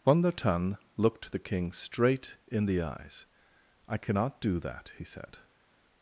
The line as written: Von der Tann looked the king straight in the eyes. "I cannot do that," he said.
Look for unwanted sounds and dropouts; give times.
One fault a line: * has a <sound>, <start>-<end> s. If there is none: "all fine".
all fine